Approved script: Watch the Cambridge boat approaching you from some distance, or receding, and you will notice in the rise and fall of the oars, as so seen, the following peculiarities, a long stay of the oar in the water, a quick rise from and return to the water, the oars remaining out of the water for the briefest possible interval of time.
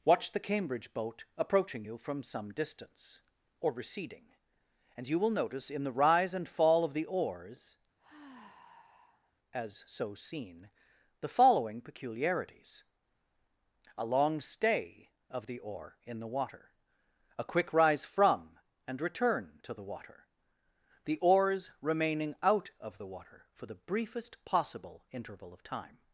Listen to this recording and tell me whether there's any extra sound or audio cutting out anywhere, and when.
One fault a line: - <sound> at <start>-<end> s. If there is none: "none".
- sigh at 8.0-9.3 s